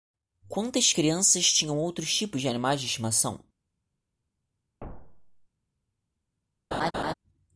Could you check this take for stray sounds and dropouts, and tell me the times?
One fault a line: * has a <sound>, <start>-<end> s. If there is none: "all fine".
* has a thud, 4.8-5.5 s
* has a laugh, 6.7-7.1 s